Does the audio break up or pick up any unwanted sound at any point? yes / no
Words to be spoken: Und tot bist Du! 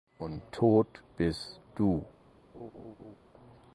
yes